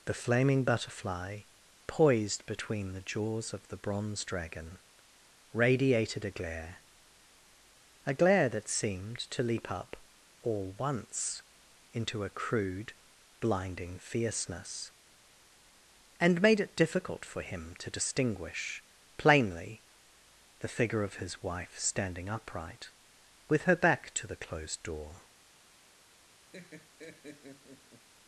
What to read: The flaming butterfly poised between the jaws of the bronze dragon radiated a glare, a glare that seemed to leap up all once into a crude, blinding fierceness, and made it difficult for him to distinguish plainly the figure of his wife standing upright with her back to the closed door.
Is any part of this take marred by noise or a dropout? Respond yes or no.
yes